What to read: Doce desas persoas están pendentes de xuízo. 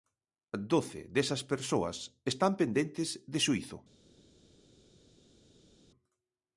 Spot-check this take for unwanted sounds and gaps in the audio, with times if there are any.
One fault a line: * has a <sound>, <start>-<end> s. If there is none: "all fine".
all fine